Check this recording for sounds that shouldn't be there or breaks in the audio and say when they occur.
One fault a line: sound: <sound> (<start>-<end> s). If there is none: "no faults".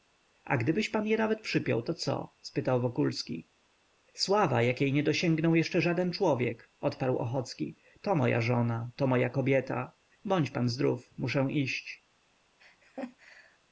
sound: laugh (12.6-13.6 s)